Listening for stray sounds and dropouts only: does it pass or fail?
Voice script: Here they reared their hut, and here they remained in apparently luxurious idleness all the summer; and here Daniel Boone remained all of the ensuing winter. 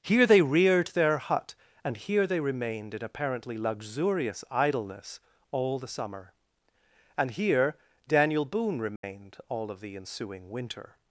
fail